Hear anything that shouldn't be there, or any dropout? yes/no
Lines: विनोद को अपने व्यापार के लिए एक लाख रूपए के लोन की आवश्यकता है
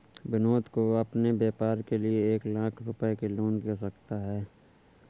no